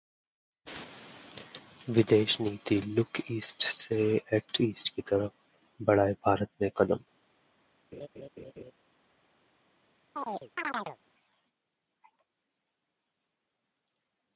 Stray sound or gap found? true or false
true